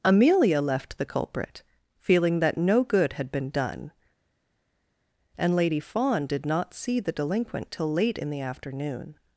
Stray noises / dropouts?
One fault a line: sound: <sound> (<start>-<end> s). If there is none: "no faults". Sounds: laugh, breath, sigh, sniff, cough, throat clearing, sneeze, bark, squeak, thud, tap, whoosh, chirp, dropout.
no faults